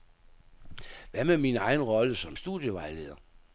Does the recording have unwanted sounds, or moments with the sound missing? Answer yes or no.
no